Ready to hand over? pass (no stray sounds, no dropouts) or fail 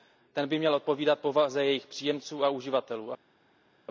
pass